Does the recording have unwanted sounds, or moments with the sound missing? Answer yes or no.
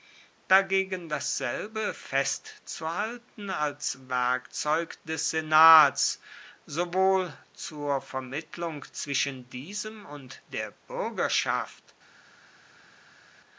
no